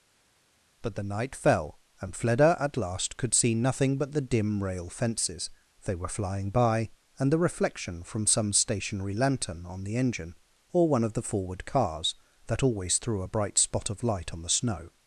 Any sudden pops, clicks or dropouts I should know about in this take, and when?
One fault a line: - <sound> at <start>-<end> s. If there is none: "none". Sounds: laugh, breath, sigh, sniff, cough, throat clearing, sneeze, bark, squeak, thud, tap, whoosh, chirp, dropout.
none